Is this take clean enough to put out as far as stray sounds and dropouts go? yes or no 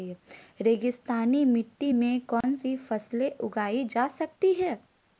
no